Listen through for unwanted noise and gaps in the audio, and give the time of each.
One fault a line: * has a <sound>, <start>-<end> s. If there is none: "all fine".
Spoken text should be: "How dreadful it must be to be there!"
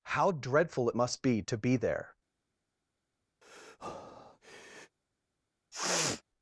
* has a breath, 3.4-5.0 s
* has a sniff, 5.7-6.2 s